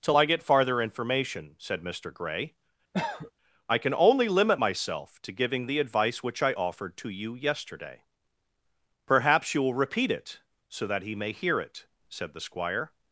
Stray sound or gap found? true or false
true